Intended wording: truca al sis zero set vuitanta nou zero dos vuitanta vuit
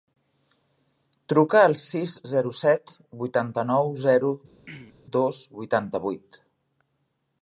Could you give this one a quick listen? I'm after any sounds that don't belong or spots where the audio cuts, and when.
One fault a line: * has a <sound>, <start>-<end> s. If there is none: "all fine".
* has a throat clearing, 4.6-4.9 s